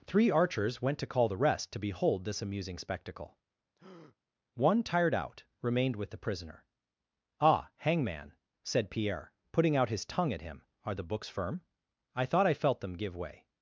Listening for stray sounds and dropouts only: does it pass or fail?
fail